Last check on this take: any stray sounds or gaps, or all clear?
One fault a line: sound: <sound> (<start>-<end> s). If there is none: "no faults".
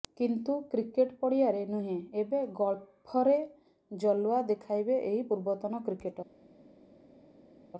no faults